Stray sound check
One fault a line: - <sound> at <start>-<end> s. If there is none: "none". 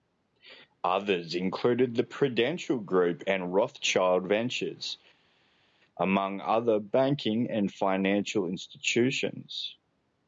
none